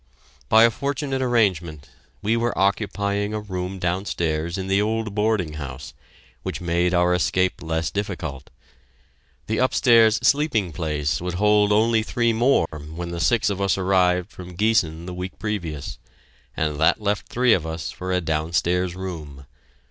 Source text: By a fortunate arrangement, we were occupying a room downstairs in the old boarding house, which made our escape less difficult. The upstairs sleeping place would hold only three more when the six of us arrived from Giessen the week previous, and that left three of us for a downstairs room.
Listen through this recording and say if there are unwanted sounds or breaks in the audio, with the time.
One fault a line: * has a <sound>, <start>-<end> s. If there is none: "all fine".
* has a dropout, 12.7-12.7 s